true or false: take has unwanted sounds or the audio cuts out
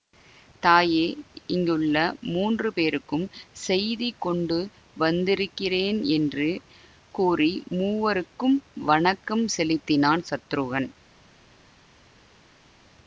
false